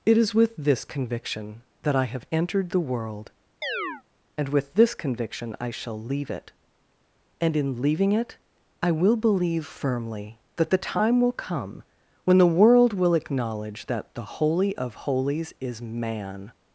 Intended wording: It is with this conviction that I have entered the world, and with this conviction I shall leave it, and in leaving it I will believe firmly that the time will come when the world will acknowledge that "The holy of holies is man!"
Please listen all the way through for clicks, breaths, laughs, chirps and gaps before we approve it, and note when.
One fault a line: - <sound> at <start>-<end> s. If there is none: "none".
- chirp at 3.6-4.0 s